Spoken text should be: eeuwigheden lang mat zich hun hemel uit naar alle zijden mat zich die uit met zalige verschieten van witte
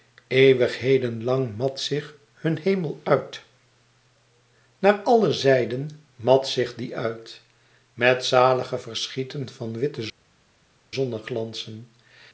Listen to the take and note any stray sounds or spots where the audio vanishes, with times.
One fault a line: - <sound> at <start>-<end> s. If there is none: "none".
none